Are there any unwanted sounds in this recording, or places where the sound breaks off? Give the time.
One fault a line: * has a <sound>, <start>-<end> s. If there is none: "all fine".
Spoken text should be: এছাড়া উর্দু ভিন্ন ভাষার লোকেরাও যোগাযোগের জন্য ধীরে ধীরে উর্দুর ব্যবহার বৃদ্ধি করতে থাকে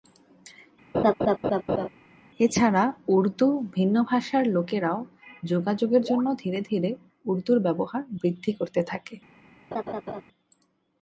* has a laugh, 0.9-1.9 s
* has a laugh, 9.7-10.2 s